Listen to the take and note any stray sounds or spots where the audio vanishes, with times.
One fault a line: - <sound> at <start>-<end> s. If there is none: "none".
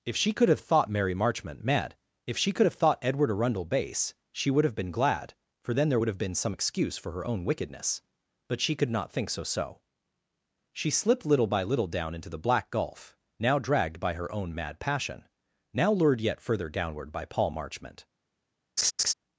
- laugh at 18.8-19.1 s